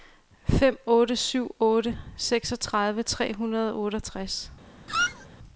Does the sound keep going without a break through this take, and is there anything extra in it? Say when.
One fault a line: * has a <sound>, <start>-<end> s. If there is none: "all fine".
* has a squeak, 4.9-5.3 s